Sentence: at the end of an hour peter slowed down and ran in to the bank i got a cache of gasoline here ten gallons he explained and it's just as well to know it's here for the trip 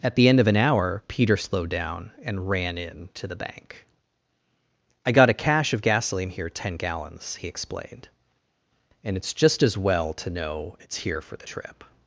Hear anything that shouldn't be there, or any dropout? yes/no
no